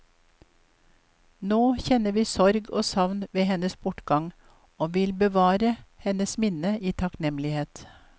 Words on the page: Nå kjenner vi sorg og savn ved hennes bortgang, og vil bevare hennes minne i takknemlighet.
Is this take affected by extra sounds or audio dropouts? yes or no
no